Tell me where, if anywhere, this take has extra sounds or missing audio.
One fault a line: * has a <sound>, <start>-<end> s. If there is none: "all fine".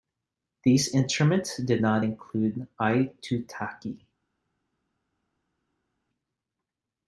all fine